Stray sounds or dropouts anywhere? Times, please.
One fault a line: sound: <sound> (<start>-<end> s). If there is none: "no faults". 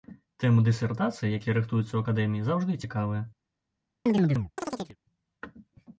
sound: chirp (4.1-5.0 s)